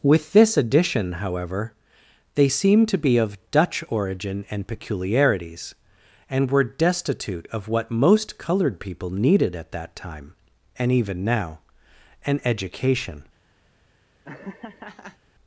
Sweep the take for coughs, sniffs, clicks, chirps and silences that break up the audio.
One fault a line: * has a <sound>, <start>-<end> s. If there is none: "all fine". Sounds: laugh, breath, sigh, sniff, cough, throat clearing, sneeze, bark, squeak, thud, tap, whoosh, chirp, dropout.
* has a laugh, 14.2-15.2 s